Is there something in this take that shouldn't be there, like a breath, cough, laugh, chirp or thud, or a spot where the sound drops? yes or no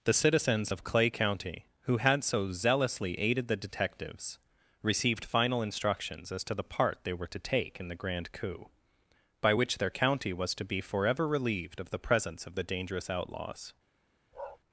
yes